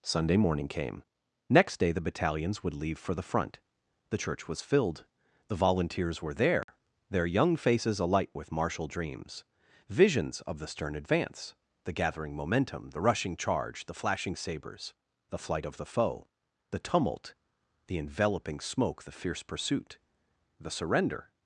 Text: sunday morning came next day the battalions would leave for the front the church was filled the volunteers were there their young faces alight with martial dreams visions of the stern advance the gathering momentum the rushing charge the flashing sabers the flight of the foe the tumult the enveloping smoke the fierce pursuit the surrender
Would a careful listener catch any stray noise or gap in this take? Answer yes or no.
yes